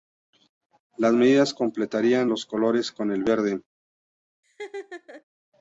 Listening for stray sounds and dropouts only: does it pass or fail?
fail